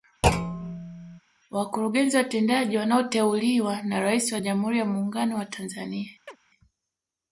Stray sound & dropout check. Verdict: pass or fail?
fail